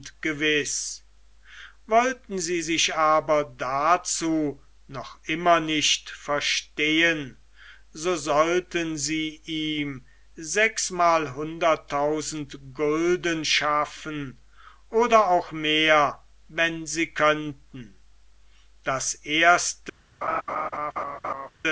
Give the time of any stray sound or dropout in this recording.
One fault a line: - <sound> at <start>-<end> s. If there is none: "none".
- laugh at 20.2-21.5 s